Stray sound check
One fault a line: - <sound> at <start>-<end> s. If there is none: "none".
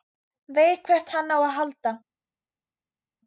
none